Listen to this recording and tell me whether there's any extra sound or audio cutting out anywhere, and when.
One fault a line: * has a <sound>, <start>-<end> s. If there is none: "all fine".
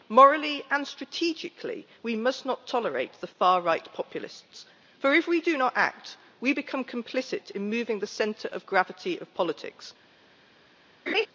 * has a laugh, 11.1-11.3 s